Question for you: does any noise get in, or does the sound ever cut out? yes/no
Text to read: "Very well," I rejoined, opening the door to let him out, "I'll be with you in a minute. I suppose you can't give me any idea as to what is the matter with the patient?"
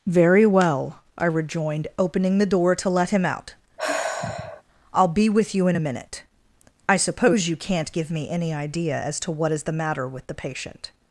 yes